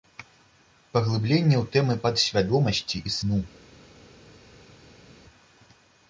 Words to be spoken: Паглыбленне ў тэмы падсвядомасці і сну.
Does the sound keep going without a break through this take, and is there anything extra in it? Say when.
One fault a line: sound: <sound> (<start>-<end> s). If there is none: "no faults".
no faults